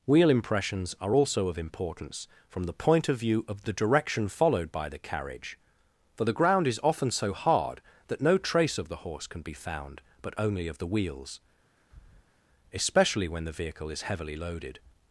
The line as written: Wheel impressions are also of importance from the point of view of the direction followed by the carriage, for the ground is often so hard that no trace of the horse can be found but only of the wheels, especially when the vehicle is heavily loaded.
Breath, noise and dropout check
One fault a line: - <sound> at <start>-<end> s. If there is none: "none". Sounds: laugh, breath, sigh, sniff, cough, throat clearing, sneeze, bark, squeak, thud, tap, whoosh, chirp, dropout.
- breath at 11.8-12.4 s